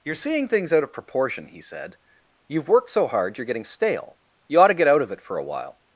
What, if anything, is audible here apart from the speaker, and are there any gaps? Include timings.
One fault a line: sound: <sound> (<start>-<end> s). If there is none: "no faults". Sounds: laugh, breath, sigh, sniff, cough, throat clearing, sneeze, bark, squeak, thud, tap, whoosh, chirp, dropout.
no faults